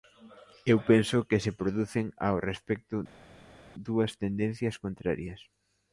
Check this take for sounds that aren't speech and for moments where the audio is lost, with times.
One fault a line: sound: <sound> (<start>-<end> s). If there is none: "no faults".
no faults